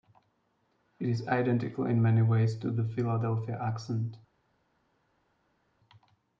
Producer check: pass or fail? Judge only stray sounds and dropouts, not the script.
pass